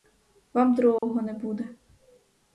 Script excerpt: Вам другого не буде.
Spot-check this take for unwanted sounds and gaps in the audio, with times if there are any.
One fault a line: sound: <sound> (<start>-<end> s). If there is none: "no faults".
sound: dropout (1.0-1.0 s)